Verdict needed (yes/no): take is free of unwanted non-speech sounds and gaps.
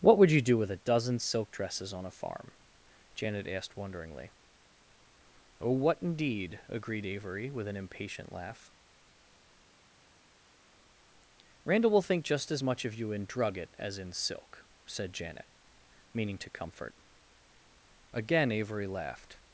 yes